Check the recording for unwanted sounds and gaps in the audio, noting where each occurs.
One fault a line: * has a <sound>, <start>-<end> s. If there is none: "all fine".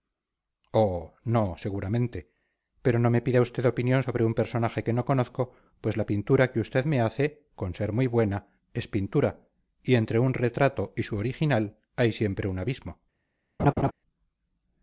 * has a laugh, 13.6-13.9 s